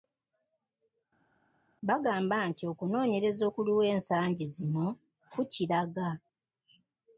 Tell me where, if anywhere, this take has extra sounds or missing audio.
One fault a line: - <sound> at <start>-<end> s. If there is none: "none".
none